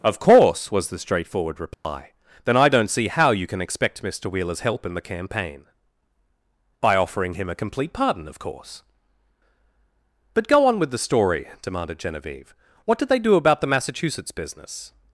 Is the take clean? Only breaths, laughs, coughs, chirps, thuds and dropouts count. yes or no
no